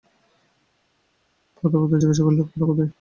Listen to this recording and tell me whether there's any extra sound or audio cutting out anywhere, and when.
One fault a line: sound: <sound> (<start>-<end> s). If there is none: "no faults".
no faults